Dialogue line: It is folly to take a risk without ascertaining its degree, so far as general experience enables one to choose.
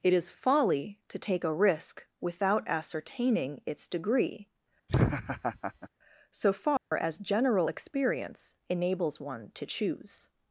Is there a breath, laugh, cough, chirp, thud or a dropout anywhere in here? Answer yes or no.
yes